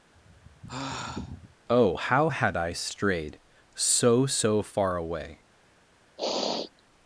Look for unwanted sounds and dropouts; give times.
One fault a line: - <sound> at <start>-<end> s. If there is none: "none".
- sigh at 0.1-1.6 s
- sniff at 6.2-6.8 s